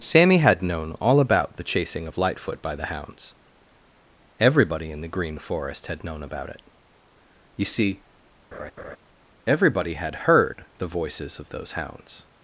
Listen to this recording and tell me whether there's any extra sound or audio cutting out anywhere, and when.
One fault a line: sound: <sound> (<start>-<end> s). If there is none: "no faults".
sound: laugh (8.5-9.0 s)